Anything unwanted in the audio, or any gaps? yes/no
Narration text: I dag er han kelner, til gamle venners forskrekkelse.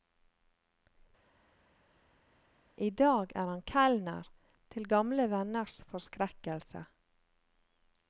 no